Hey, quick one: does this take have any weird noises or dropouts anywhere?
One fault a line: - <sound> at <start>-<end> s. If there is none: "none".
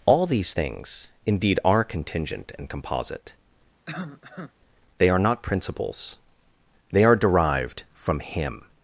- cough at 3.9-4.5 s